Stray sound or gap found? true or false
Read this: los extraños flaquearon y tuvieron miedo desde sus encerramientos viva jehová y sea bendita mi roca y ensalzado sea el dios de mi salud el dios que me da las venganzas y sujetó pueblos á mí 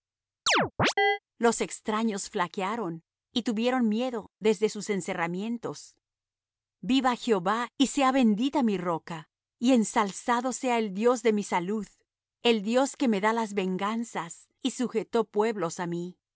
true